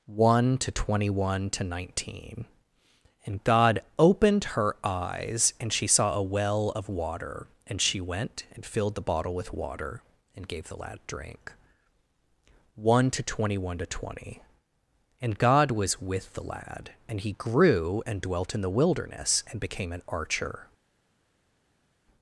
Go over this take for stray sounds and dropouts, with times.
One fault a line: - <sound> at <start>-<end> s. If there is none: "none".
none